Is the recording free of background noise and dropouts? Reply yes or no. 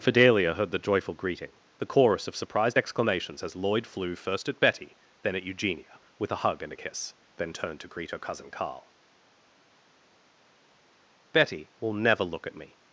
yes